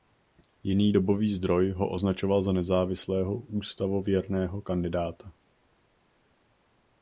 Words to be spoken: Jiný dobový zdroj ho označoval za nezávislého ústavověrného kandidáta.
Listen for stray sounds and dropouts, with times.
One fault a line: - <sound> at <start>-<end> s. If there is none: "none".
none